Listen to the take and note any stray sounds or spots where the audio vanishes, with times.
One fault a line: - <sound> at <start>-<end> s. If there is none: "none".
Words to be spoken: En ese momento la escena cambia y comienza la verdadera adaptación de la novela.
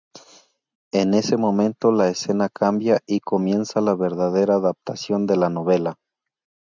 none